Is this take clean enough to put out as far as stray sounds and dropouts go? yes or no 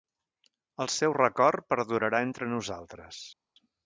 yes